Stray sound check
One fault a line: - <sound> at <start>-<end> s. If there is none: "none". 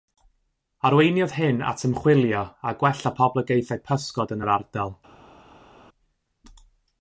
none